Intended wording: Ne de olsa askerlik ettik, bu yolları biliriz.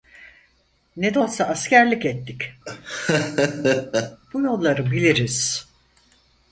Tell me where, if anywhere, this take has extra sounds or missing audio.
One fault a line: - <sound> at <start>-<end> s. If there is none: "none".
- laugh at 2.6-4.2 s